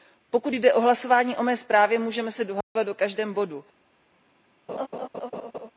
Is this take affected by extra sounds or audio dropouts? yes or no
yes